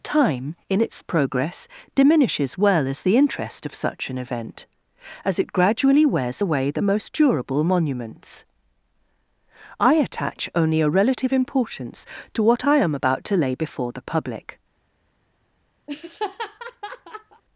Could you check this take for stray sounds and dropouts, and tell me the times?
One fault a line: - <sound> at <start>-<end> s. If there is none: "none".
- laugh at 15.9-17.4 s